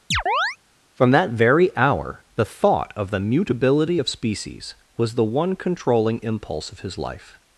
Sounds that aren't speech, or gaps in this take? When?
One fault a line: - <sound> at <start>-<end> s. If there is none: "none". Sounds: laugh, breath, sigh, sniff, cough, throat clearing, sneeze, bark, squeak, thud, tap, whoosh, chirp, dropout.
- chirp at 0.1-0.6 s